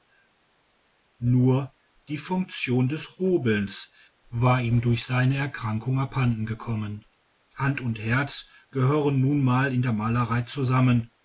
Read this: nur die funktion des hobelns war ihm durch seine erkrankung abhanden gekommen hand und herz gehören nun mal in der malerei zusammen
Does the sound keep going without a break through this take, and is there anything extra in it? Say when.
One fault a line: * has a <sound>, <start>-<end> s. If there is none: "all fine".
all fine